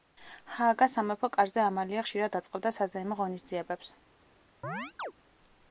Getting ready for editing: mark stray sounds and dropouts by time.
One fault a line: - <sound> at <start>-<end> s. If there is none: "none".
- chirp at 4.6-5.1 s